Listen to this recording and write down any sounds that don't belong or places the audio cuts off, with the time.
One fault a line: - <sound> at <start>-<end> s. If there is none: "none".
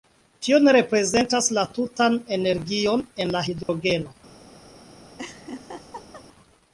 - dropout at 3.6-3.7 s
- laugh at 5.2-6.2 s